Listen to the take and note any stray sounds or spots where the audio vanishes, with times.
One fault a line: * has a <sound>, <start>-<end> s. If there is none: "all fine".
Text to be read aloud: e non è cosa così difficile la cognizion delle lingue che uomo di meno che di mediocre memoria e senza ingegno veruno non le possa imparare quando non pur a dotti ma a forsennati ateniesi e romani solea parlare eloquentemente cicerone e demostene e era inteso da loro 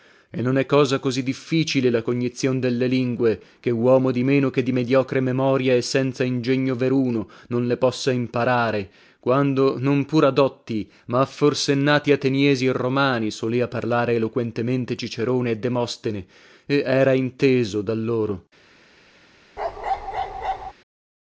* has a bark, 19.6-20.7 s